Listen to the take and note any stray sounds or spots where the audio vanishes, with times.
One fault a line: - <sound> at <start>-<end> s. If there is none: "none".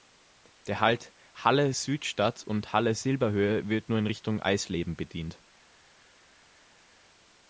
none